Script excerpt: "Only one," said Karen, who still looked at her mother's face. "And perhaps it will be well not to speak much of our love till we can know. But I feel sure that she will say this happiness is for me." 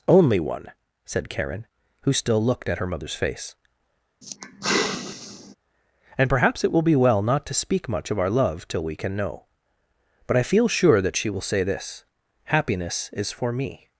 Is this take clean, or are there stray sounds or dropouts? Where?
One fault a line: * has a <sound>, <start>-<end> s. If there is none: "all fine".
* has a sigh, 4.2-5.6 s